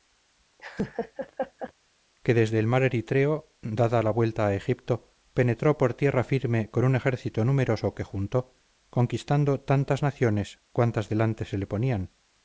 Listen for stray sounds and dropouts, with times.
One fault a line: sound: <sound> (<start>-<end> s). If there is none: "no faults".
sound: laugh (0.6-1.7 s)